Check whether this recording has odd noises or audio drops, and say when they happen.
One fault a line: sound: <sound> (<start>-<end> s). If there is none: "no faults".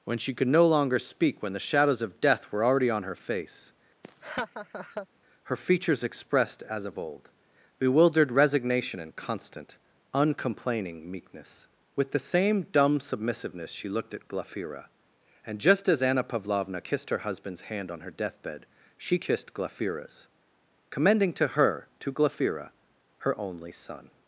sound: laugh (4.0-5.1 s)